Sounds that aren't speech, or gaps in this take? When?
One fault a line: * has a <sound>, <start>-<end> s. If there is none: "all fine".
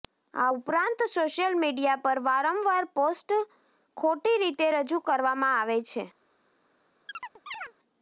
* has a chirp, 7.1-7.7 s